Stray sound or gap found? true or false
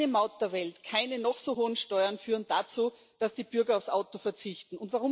false